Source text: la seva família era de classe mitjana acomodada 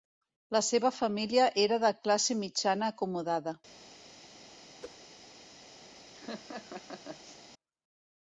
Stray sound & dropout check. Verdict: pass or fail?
fail